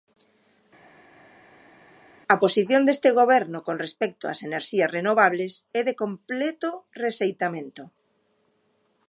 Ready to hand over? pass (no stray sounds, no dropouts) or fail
pass